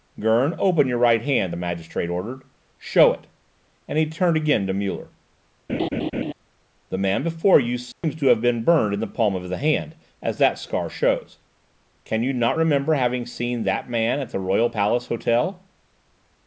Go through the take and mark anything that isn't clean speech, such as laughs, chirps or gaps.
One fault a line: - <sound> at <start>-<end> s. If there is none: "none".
- laugh at 5.7-6.3 s
- dropout at 7.9-8.0 s